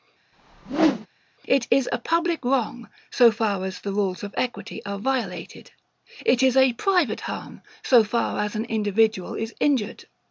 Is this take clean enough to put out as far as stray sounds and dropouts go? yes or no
no